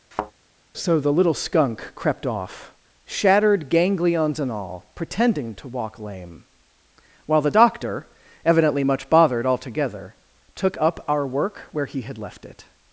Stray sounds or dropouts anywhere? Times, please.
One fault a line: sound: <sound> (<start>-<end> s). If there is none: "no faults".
sound: thud (0.1-0.3 s)